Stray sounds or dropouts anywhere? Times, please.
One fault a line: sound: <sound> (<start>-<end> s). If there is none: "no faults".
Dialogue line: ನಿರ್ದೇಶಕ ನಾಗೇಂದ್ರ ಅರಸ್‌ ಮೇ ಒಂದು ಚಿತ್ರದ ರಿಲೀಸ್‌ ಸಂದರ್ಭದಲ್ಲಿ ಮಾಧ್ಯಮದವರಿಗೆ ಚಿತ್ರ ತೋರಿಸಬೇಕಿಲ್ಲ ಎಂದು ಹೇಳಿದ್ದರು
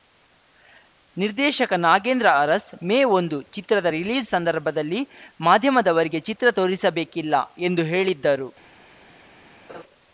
sound: laugh (9.7-9.8 s)